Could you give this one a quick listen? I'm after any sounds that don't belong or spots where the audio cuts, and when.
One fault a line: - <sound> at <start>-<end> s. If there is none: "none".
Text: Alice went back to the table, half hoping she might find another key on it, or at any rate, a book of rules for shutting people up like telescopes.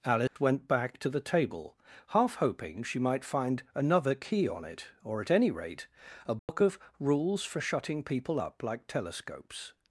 - dropout at 0.3-0.4 s
- dropout at 6.4-6.5 s